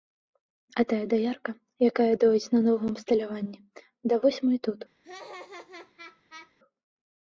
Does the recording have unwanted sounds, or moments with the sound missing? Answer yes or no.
yes